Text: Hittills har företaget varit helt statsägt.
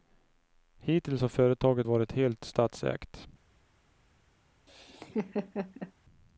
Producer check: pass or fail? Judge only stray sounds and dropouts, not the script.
fail